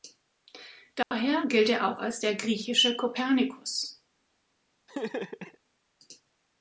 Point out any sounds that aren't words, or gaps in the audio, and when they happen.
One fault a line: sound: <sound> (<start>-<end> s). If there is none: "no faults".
sound: dropout (1.0-1.1 s)
sound: laugh (4.9-5.6 s)